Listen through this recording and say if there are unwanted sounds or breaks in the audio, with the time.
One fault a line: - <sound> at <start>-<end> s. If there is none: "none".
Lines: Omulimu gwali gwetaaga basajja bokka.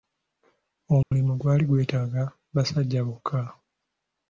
- dropout at 1.0-1.1 s